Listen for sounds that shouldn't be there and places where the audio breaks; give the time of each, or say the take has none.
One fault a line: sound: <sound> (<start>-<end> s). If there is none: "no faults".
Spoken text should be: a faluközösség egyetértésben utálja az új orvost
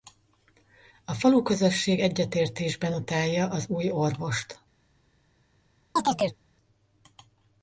sound: chirp (6.0-6.4 s)